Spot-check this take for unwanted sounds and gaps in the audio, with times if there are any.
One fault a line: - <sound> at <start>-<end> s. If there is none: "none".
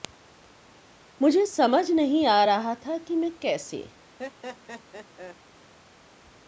- laugh at 4.2-5.4 s